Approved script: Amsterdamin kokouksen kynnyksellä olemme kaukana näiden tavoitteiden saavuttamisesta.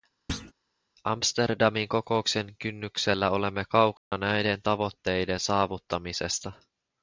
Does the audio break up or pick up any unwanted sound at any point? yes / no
yes